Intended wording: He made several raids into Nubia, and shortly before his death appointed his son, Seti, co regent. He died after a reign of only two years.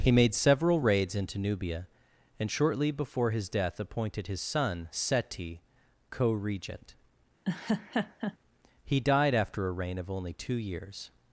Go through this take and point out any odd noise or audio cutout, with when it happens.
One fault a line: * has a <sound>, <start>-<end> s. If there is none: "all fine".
* has a laugh, 7.4-8.4 s